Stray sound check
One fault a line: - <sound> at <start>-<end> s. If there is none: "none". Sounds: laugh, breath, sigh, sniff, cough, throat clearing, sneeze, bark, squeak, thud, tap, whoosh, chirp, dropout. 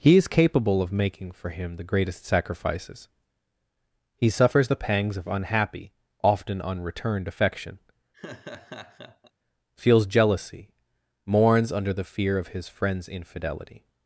- laugh at 8.1-9.3 s